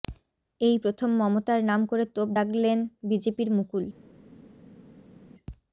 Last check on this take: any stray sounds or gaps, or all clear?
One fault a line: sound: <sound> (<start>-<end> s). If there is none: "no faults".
no faults